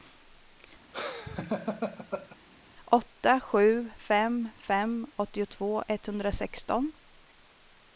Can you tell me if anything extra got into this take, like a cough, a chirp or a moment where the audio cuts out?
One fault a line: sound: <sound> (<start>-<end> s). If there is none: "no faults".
sound: laugh (0.9-2.4 s)